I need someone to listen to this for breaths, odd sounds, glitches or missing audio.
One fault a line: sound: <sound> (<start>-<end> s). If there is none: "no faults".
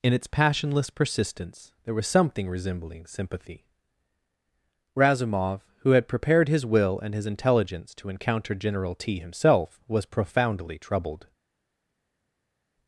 no faults